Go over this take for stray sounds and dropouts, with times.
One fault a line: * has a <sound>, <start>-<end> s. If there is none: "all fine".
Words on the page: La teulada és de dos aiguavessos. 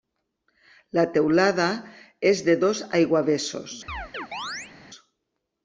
* has a chirp, 3.9-4.7 s